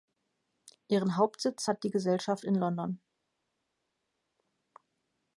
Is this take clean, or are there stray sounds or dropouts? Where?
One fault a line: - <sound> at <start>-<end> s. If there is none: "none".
none